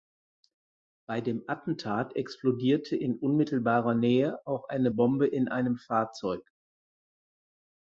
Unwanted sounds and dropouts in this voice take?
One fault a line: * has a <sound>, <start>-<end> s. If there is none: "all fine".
all fine